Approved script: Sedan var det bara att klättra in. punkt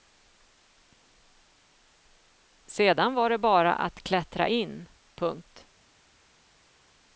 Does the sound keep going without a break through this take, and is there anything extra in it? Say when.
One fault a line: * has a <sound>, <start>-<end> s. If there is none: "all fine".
all fine